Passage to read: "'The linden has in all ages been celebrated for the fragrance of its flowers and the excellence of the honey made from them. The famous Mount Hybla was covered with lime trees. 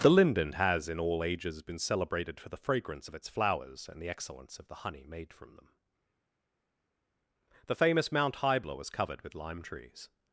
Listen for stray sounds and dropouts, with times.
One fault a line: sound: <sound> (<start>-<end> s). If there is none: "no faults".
no faults